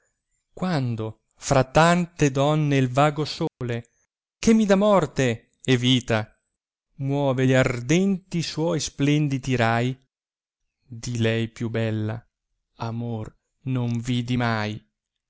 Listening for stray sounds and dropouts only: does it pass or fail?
fail